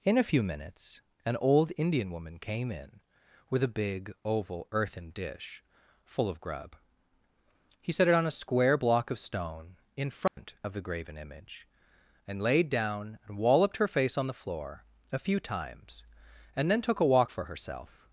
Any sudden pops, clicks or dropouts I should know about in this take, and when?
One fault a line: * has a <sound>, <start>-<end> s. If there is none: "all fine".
* has a dropout, 10.3-10.4 s